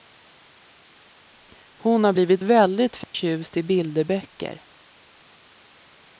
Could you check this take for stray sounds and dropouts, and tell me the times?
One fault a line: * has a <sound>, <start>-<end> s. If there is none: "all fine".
* has a dropout, 3.0-3.1 s